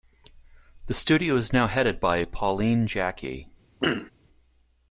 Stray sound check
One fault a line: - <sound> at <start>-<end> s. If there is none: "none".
- throat clearing at 3.8-4.1 s